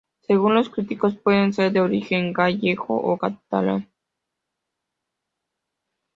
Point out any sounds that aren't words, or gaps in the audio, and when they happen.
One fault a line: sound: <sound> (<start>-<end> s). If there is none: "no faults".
no faults